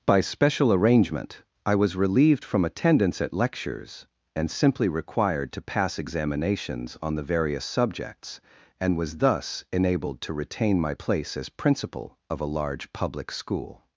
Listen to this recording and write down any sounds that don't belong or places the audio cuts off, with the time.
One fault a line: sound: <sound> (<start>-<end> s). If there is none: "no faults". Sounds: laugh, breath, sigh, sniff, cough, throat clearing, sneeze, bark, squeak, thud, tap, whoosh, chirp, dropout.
no faults